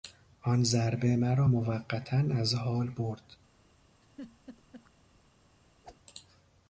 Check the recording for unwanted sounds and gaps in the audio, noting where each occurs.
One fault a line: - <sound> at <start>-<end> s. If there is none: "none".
- laugh at 4.0-4.9 s
- whoosh at 5.8-6.0 s